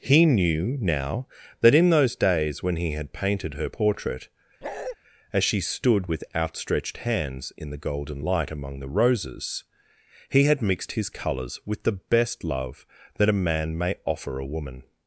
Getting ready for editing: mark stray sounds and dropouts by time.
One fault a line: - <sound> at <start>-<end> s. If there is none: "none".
- bark at 4.6-5.0 s